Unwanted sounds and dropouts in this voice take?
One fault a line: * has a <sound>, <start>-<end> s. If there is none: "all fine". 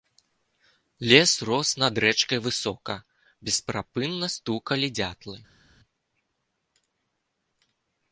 all fine